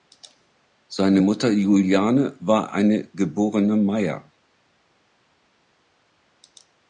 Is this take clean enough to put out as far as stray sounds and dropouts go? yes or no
yes